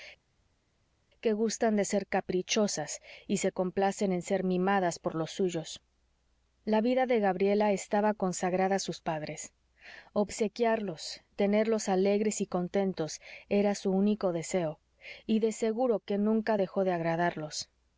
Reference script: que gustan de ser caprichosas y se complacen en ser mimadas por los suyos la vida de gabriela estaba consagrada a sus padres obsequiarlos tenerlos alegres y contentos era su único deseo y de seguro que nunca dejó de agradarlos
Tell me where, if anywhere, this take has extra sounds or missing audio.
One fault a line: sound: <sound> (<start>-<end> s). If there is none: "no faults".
no faults